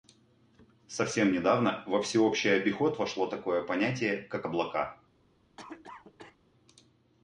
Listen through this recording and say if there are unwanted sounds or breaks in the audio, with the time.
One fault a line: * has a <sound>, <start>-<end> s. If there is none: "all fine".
* has a cough, 5.6-6.4 s